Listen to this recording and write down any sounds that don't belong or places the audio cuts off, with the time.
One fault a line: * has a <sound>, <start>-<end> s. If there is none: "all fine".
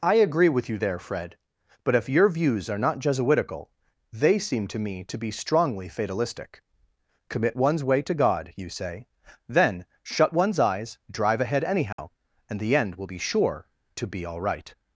* has a dropout, 11.9-12.0 s